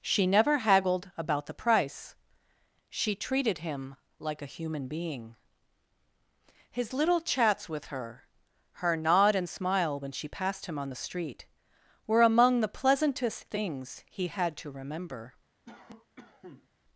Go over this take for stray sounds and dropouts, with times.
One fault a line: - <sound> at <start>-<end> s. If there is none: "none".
- cough at 15.7-16.7 s